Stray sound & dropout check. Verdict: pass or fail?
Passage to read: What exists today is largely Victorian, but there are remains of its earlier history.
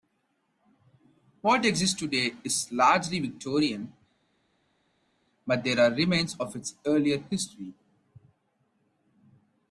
pass